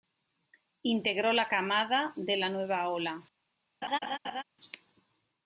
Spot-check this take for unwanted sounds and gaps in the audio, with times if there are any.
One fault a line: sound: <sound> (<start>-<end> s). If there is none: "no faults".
sound: laugh (3.8-4.4 s)